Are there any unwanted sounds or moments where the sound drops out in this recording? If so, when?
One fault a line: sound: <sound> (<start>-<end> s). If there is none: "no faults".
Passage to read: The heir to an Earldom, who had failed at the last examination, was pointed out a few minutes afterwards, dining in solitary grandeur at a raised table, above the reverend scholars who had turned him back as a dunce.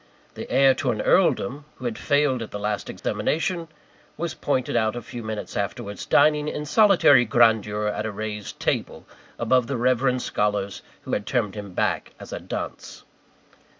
sound: dropout (3.0-3.0 s)